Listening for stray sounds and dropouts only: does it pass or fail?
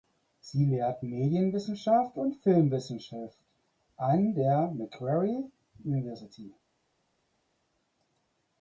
pass